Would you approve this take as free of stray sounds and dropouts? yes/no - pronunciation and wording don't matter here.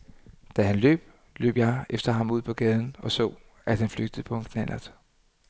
yes